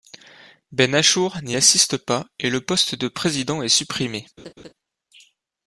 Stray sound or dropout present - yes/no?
yes